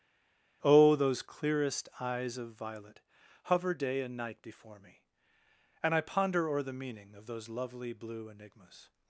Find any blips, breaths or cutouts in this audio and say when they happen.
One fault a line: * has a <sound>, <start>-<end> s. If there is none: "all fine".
all fine